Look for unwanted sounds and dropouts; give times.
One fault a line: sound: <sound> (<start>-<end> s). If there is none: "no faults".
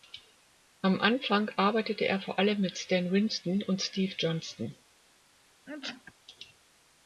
sound: sneeze (5.7-6.1 s)